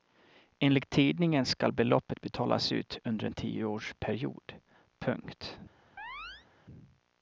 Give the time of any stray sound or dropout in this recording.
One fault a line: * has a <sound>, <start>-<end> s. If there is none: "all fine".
* has a chirp, 6.0-6.5 s